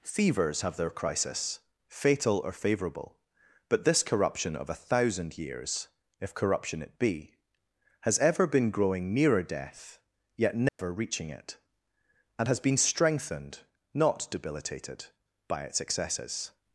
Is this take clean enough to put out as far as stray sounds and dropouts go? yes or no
no